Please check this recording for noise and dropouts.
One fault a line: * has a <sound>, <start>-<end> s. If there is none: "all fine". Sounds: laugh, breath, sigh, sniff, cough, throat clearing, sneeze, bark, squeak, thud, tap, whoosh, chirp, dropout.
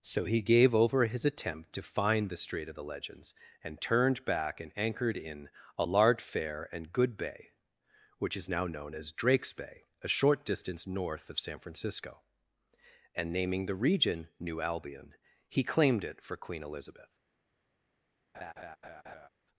* has a laugh, 18.3-19.3 s